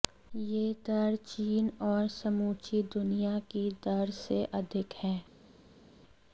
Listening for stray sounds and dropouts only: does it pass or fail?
pass